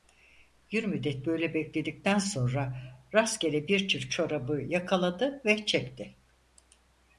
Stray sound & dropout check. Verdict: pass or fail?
pass